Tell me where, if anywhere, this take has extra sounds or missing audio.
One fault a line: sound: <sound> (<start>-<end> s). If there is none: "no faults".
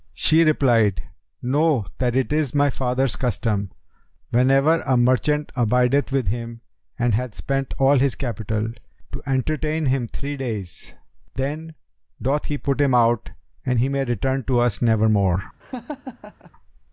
sound: laugh (15.6-16.5 s)